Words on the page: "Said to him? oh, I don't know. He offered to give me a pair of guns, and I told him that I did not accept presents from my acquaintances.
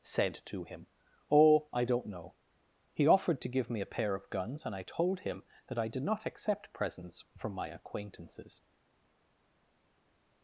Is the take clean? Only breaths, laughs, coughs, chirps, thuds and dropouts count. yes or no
yes